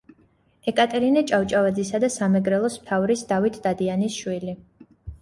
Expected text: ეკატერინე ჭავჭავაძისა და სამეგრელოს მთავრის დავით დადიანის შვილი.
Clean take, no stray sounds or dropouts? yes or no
yes